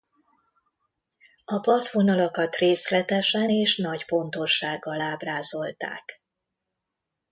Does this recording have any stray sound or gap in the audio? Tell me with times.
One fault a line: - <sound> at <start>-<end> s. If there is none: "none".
none